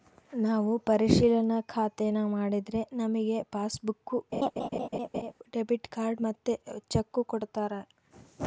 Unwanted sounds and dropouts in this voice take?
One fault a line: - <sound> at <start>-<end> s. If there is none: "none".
- laugh at 4.3-5.3 s